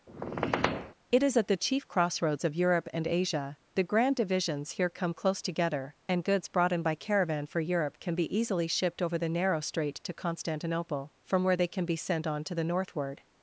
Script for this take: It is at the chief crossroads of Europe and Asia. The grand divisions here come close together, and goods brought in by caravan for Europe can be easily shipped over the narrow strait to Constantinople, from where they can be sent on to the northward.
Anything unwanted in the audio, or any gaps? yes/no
yes